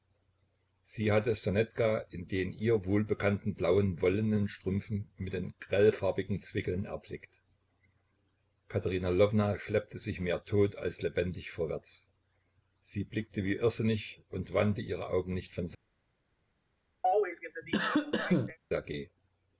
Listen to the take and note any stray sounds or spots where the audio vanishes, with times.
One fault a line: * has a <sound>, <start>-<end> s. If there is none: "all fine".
* has a cough, 17.0-18.6 s